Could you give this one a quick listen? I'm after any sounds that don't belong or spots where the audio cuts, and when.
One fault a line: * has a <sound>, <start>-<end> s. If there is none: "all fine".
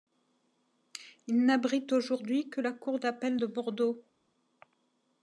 all fine